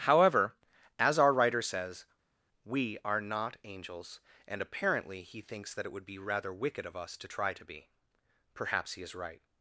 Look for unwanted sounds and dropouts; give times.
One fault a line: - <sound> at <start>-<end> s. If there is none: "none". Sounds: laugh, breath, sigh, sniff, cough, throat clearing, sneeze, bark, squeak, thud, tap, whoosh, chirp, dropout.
none